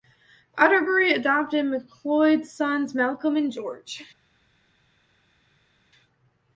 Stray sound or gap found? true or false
false